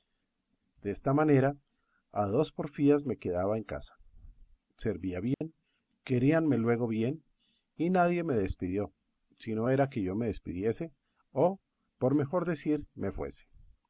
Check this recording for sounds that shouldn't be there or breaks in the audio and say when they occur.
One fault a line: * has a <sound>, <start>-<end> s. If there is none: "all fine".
* has a dropout, 5.3-5.4 s